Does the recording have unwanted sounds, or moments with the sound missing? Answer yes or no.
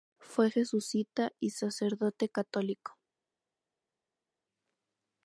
no